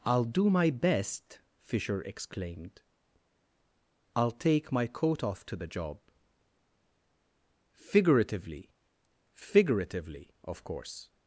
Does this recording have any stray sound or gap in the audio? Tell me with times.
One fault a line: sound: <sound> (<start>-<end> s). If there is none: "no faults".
no faults